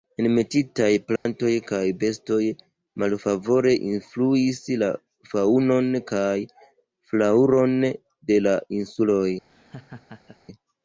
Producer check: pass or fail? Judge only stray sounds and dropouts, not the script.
fail